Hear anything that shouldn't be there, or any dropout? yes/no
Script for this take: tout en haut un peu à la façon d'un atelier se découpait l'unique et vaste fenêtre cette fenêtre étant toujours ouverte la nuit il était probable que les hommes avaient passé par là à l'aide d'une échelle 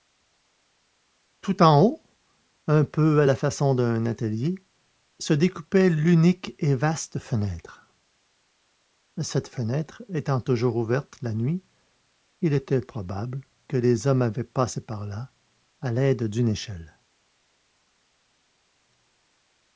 no